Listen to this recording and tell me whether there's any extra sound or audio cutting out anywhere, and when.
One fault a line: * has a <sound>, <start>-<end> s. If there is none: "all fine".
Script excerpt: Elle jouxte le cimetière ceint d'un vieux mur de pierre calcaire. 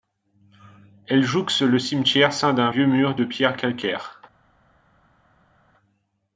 all fine